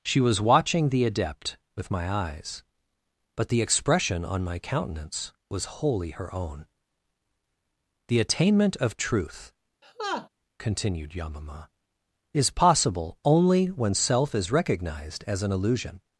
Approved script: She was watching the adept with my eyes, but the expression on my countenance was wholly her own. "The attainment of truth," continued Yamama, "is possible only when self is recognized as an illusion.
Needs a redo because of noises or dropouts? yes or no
yes